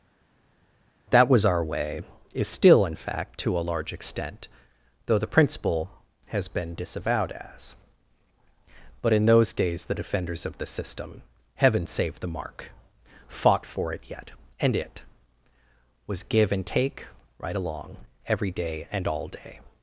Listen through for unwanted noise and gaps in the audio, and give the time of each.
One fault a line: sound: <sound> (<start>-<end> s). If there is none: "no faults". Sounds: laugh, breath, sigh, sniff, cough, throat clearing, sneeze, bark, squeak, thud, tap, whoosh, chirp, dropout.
no faults